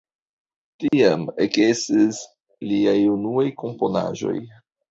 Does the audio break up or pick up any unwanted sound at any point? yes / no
yes